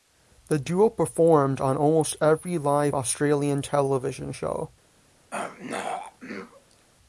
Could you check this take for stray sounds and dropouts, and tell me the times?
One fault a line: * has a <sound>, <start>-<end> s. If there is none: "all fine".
* has a throat clearing, 5.3-6.9 s